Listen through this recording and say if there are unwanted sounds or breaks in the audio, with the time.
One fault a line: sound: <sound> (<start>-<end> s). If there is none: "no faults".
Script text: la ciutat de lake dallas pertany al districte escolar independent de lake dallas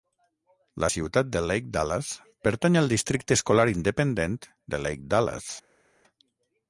no faults